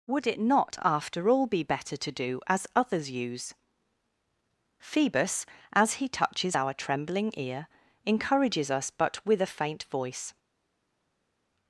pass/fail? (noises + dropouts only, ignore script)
pass